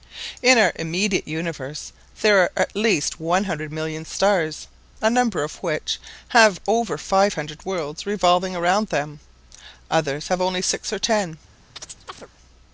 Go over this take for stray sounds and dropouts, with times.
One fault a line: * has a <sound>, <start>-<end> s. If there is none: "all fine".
* has a chirp, 11.8-12.3 s